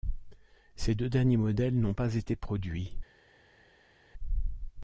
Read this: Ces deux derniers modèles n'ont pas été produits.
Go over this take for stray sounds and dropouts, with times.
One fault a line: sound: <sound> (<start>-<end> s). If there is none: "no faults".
no faults